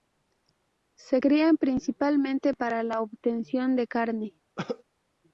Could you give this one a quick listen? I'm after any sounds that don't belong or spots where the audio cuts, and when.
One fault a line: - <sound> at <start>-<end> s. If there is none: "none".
- cough at 4.6-4.8 s